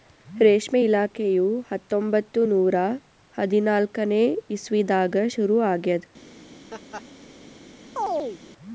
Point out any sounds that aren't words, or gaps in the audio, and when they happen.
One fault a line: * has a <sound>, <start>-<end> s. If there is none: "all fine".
* has a laugh, 6.7-7.0 s
* has a chirp, 8.0-8.4 s